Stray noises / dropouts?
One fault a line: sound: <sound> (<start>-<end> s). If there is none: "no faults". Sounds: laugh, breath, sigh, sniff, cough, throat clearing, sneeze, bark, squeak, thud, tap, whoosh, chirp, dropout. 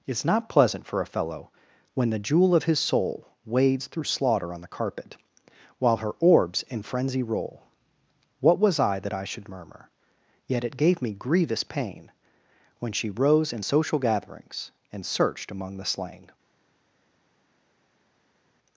no faults